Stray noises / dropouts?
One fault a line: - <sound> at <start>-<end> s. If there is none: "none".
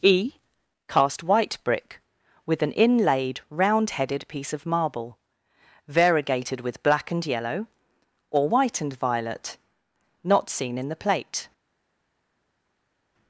none